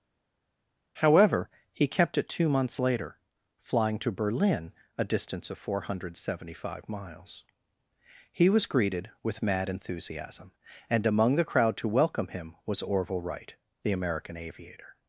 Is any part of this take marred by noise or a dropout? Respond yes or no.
no